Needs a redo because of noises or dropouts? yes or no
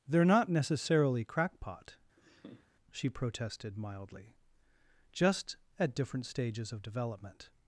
yes